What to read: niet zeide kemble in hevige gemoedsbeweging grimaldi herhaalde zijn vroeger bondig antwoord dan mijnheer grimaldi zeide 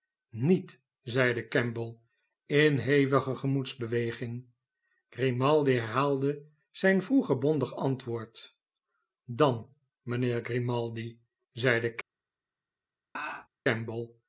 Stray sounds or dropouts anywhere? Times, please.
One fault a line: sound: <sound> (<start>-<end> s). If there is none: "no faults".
sound: laugh (13.2-13.5 s)